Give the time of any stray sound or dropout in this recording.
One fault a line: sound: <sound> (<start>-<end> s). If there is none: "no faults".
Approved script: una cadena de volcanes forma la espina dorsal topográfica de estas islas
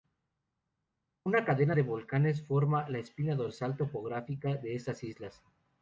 no faults